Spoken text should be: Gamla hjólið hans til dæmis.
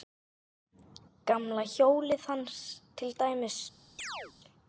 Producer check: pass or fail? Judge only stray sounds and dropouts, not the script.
fail